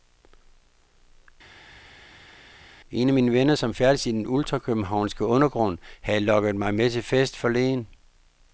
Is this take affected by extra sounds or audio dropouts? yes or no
no